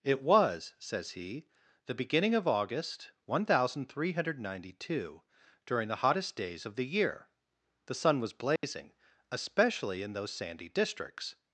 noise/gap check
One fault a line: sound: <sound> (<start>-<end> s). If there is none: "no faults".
sound: dropout (8.6-8.6 s)